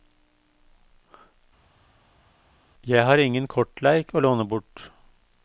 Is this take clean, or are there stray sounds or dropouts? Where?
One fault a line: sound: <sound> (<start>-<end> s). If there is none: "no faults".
no faults